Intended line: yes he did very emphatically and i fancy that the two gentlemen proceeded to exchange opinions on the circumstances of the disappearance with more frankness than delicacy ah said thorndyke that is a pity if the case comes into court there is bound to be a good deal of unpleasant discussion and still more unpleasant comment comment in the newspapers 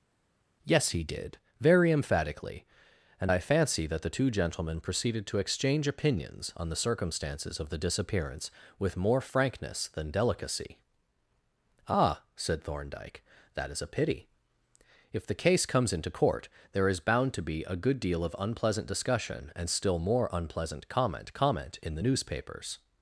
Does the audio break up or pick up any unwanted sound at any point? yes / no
no